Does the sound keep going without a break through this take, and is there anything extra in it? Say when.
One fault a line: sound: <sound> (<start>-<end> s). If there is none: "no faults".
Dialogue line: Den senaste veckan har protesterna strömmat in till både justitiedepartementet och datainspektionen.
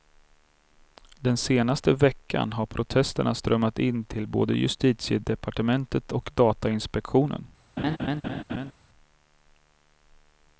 sound: laugh (7.8-8.7 s)